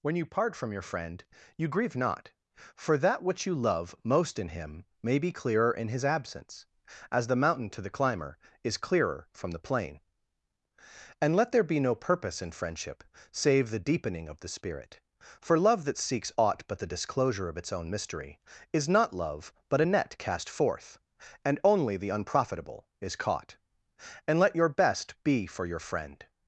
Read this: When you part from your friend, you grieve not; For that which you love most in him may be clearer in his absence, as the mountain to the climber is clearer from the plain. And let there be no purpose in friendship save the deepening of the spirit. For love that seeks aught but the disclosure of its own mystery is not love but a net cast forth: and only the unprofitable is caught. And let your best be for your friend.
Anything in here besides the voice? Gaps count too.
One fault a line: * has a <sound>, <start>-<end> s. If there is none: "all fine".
all fine